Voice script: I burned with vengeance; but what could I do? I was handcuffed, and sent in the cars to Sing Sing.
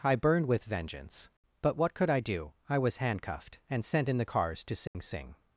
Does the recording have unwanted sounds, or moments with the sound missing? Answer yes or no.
yes